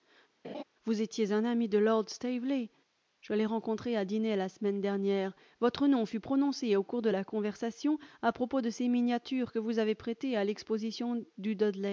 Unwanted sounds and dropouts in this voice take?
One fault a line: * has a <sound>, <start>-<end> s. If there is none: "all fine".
* has a laugh, 0.4-0.6 s